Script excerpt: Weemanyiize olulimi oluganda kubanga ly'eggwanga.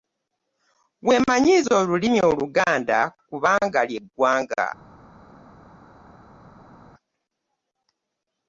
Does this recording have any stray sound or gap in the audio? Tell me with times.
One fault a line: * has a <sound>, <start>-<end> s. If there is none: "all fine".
all fine